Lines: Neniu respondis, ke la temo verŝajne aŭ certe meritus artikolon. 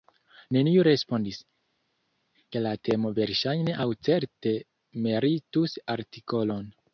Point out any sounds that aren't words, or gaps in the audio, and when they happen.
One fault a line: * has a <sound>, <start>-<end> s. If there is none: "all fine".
all fine